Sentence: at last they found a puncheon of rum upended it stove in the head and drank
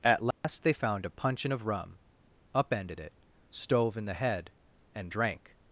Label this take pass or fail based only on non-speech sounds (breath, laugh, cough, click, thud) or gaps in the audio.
fail